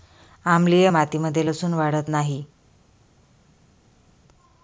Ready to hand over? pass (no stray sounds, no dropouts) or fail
pass